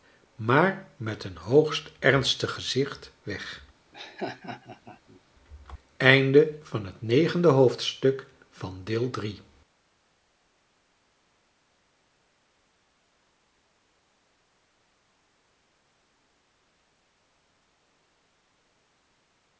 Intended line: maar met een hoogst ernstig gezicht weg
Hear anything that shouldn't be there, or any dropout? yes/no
yes